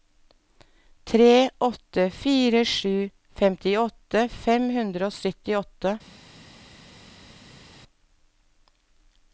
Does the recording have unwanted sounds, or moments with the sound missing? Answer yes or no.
no